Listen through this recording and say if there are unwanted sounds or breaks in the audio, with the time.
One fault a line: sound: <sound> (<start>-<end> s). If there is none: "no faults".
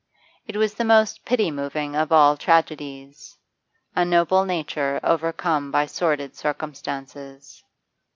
no faults